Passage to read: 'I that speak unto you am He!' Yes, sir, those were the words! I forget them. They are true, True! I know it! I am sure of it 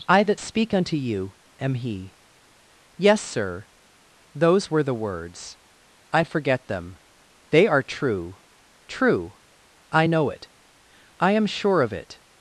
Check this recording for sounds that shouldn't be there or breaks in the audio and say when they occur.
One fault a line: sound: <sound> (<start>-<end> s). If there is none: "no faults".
no faults